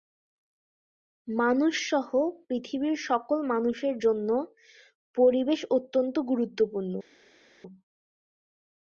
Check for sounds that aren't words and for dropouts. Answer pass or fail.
pass